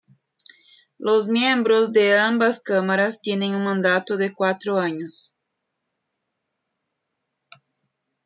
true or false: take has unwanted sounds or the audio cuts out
false